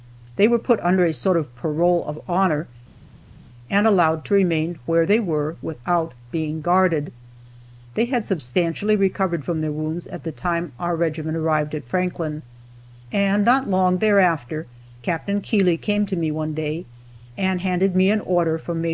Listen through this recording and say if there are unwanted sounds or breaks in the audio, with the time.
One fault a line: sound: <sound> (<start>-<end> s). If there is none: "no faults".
no faults